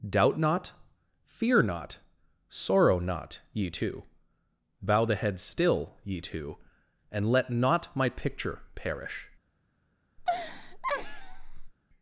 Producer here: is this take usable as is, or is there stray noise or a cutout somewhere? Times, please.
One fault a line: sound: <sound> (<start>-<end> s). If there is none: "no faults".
sound: laugh (10.2-11.7 s)